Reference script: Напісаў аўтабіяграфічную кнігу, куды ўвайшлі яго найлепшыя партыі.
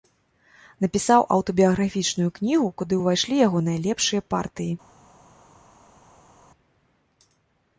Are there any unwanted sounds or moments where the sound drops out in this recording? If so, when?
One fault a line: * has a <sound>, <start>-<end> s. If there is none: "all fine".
all fine